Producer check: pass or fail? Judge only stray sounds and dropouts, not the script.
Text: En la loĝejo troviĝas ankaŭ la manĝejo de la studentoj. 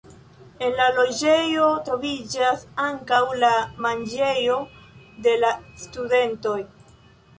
pass